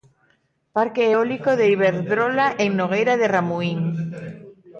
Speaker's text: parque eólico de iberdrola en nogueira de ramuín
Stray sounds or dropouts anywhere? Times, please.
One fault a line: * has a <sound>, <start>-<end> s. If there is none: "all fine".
all fine